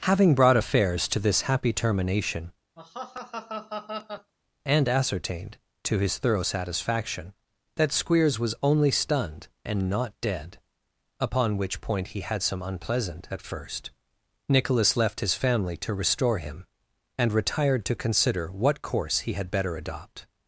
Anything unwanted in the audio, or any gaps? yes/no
yes